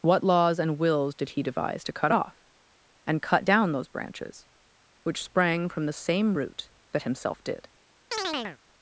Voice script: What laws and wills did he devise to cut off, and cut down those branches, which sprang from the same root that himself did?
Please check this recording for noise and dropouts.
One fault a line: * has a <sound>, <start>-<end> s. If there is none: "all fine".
* has a chirp, 8.1-8.6 s